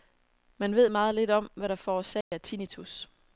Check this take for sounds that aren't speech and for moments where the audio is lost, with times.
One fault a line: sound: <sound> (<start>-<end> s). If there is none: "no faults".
sound: dropout (2.2-2.3 s)